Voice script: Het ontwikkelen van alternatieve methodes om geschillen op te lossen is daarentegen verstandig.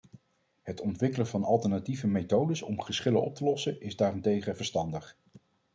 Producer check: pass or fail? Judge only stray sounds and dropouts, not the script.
pass